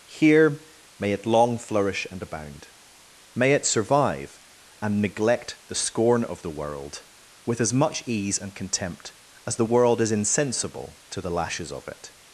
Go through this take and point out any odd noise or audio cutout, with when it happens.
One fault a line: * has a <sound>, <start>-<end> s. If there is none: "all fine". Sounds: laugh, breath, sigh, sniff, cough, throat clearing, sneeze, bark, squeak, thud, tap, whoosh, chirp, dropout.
all fine